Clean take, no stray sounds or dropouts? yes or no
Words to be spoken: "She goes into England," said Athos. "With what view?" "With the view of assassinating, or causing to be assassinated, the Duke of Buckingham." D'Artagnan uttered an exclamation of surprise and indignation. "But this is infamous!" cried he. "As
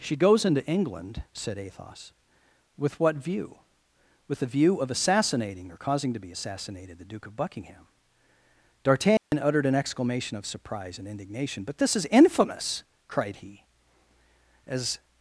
no